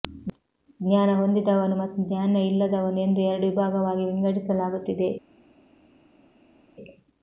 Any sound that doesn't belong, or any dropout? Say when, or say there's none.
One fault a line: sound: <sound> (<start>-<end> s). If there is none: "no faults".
no faults